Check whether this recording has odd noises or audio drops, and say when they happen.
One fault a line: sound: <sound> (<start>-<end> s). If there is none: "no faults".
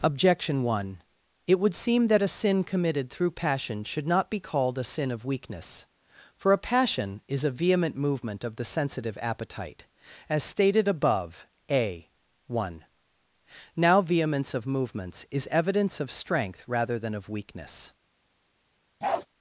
sound: bark (19.0-19.3 s)